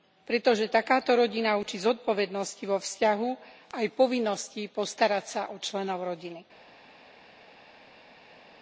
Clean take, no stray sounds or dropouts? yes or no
yes